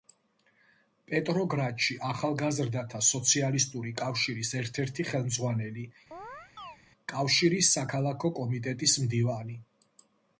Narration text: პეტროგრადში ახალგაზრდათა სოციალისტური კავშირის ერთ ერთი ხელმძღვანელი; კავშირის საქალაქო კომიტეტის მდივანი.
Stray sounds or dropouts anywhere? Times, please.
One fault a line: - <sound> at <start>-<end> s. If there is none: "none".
- chirp at 6.1-6.8 s